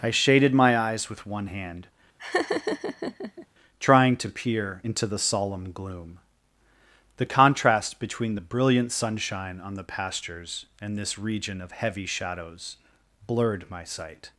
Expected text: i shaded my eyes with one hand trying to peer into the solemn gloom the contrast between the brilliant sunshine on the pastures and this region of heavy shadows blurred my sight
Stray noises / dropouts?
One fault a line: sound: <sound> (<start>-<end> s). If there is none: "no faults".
sound: laugh (2.2-3.5 s)